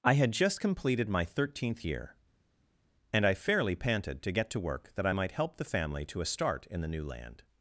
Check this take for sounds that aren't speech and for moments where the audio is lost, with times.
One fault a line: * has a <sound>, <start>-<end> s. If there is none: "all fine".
all fine